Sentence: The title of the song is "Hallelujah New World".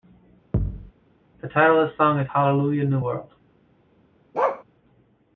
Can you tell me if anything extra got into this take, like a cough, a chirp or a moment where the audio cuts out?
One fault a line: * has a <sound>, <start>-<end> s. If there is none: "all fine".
* has a thud, 0.5-0.9 s
* has a bark, 4.3-4.6 s